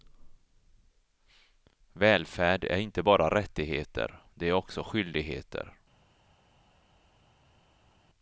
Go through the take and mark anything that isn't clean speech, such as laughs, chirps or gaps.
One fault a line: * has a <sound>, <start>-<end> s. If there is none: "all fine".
all fine